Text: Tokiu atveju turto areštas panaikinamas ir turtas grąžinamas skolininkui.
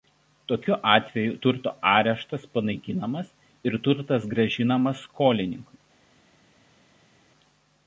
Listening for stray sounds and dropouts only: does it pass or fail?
pass